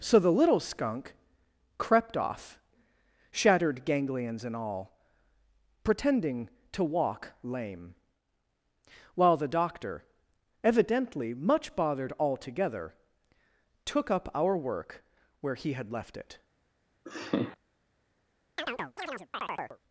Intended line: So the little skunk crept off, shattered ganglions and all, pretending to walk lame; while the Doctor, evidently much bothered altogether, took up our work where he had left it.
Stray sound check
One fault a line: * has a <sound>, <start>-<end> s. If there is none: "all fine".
* has a laugh, 17.1-17.6 s
* has a chirp, 18.6-19.8 s